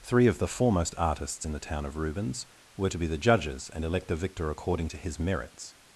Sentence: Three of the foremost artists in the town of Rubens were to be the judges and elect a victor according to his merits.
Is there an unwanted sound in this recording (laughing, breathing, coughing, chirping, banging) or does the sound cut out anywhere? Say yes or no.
no